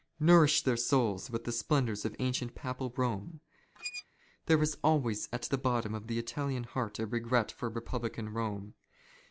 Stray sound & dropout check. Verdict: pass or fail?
fail